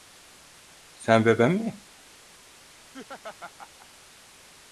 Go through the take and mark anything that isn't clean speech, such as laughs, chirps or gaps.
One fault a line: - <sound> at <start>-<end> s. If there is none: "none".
- laugh at 2.8-3.9 s